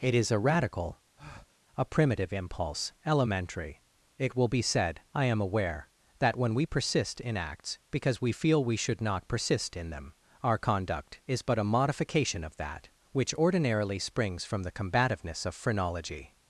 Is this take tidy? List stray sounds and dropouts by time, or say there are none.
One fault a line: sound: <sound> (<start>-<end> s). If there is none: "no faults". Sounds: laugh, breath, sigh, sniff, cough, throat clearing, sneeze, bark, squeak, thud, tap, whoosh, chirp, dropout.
sound: breath (1.2-1.6 s)